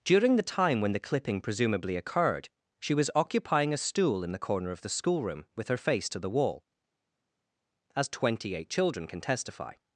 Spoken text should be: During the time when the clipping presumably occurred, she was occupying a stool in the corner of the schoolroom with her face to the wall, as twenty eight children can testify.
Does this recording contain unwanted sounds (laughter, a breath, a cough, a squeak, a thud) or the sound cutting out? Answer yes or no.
no